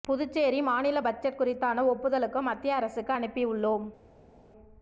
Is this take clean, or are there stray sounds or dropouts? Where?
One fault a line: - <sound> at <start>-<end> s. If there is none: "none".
none